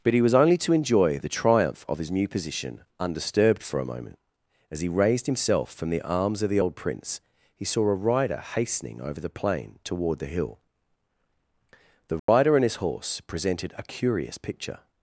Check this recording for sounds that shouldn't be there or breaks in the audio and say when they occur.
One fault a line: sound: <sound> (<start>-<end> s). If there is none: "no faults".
sound: dropout (12.2-12.3 s)